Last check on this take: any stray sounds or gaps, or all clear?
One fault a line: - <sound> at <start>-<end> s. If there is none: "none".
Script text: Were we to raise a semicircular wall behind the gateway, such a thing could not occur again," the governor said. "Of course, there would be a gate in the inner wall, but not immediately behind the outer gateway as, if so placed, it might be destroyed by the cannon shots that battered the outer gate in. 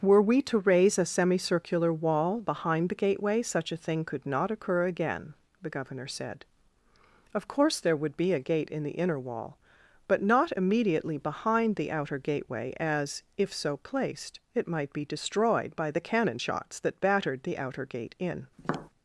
- tap at 18.6-18.9 s